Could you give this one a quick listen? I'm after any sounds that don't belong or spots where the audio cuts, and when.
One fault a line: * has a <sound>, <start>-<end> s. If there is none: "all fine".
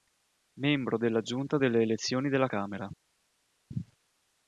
all fine